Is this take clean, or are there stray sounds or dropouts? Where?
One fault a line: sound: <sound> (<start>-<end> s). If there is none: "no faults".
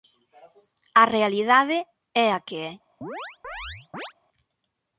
sound: chirp (3.0-4.1 s)